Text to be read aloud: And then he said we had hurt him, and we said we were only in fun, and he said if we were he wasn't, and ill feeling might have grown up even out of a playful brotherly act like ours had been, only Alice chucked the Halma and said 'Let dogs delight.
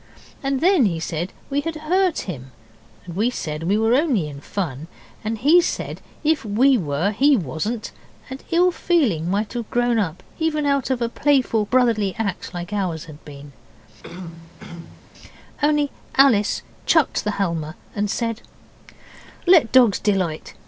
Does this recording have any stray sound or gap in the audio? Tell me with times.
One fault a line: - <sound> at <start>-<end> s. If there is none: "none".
- throat clearing at 14.0-15.1 s